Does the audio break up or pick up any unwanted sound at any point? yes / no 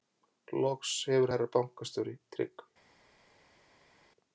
no